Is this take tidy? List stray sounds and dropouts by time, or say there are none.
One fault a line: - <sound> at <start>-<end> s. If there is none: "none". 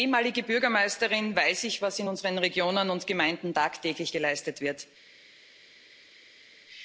none